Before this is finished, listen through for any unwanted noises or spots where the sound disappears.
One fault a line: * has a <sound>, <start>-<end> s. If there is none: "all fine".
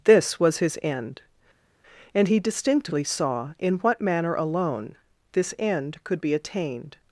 all fine